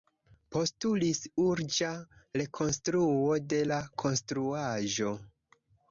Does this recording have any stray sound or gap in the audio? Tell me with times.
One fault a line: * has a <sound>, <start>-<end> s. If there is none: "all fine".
all fine